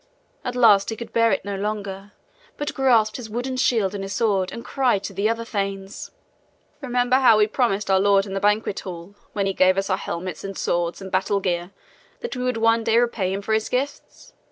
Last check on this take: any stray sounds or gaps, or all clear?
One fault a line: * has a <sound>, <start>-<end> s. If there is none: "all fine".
all fine